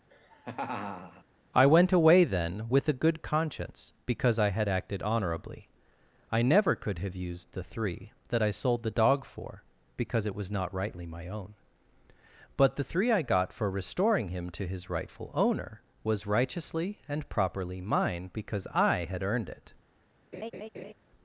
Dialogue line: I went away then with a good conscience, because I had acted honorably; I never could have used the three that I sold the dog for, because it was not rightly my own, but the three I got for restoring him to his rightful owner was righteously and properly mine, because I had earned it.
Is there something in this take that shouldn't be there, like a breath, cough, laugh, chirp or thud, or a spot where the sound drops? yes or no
yes